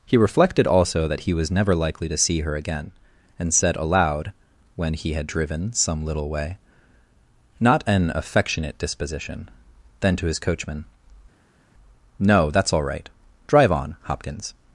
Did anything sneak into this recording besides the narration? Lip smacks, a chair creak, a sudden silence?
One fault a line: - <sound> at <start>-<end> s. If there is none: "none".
none